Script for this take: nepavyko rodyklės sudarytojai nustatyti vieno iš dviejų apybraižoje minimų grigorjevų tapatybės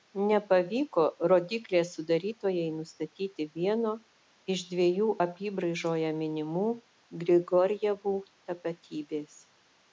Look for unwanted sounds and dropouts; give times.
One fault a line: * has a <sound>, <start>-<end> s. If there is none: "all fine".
all fine